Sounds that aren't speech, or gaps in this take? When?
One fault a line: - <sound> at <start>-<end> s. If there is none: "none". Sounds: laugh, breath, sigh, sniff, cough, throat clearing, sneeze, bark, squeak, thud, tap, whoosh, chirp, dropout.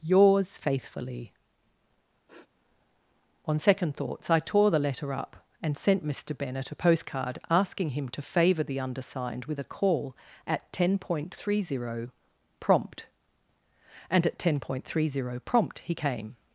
- sniff at 2.3-2.5 s